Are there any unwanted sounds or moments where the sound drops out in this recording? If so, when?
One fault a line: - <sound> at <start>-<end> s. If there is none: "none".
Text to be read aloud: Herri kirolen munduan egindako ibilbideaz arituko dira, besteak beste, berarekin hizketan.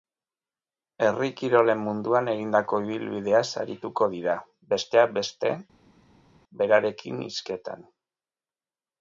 none